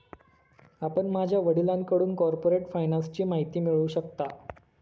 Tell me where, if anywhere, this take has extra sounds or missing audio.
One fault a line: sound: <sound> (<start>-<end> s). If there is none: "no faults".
no faults